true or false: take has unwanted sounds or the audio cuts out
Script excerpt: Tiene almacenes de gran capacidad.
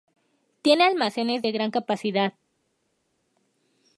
false